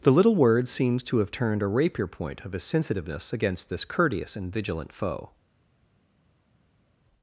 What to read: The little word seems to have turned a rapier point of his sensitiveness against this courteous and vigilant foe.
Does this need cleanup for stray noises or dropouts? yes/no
no